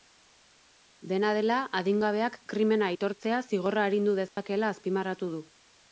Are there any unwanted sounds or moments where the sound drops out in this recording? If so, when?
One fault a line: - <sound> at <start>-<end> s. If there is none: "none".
- dropout at 4.3-4.4 s